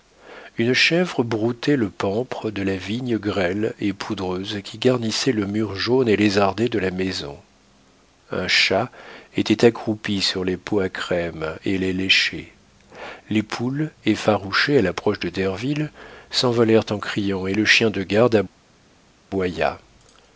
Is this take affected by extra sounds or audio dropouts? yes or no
no